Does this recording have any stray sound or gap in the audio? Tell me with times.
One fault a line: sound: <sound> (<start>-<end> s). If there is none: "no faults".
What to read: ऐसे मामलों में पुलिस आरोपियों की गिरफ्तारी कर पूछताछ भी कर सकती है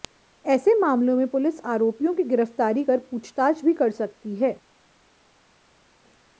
no faults